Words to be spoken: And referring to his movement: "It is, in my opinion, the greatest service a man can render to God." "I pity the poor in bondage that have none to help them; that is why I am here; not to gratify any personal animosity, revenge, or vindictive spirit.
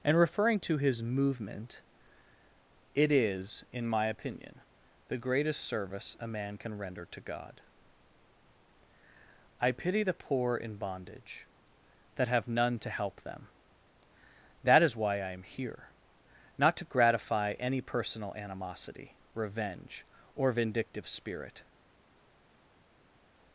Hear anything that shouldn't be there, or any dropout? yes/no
no